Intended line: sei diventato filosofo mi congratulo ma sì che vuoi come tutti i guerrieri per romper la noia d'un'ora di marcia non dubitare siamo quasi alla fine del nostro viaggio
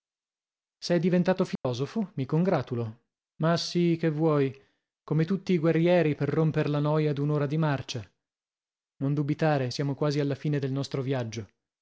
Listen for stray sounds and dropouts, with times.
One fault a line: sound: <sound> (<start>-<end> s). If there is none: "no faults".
sound: dropout (1.6-1.6 s)